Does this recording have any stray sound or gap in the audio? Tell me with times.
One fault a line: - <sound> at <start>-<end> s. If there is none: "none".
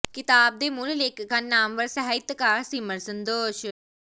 none